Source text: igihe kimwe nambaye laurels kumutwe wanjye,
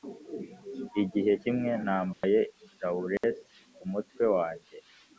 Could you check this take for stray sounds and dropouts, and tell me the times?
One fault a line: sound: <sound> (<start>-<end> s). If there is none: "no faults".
sound: dropout (2.1-2.2 s)
sound: dropout (3.2-3.2 s)